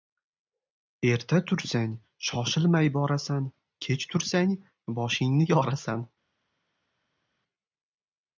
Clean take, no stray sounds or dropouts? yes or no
yes